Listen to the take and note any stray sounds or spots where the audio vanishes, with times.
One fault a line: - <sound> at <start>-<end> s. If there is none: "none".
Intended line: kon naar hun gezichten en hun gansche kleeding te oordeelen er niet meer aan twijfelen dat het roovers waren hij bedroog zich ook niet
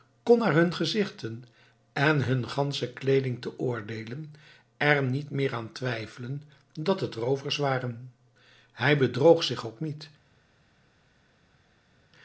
none